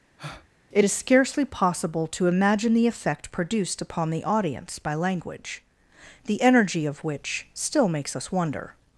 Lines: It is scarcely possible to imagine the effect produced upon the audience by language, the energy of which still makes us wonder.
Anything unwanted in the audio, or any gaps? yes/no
yes